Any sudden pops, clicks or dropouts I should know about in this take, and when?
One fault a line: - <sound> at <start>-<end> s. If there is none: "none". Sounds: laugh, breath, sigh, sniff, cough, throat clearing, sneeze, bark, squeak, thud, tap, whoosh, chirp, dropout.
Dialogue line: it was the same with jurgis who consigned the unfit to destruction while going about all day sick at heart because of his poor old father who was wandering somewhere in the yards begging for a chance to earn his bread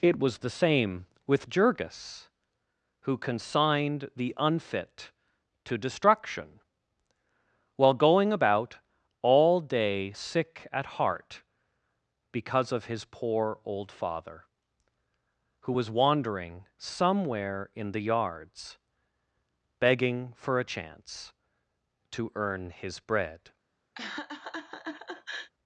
- laugh at 24.0-25.5 s